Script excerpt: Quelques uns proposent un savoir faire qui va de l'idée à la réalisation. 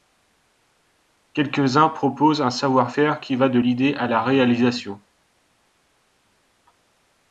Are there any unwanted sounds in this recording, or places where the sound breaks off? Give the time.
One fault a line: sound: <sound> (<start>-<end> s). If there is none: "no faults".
no faults